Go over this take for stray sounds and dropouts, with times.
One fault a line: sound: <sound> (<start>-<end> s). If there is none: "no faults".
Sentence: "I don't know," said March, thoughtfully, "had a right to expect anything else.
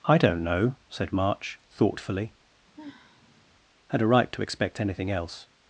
sound: sigh (2.8-3.4 s)